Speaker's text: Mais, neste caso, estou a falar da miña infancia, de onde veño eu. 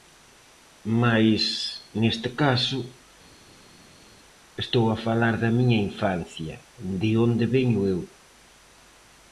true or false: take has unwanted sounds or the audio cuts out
false